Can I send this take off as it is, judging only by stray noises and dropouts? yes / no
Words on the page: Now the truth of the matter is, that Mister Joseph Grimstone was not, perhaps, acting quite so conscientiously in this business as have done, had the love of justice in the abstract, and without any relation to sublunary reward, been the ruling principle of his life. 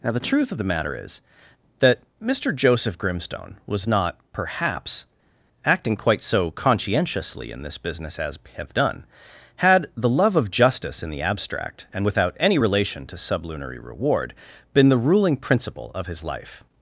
yes